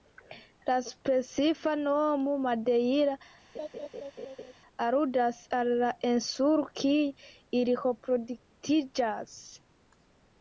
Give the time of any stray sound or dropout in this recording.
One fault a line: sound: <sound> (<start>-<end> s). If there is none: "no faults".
sound: laugh (3.5-4.5 s)